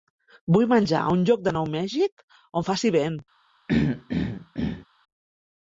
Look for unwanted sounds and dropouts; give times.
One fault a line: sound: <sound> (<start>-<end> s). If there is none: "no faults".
sound: throat clearing (3.7-4.9 s)